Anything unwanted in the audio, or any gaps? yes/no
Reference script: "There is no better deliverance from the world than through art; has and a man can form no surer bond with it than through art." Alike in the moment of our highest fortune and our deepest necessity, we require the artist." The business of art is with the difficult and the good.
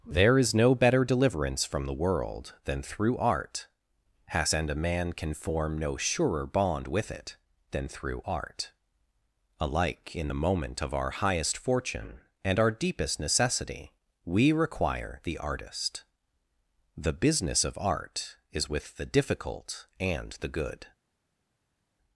no